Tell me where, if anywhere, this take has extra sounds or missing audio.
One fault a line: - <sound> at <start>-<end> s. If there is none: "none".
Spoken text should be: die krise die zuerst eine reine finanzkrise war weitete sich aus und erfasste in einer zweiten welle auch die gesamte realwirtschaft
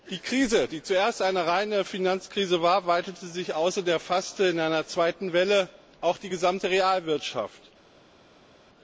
none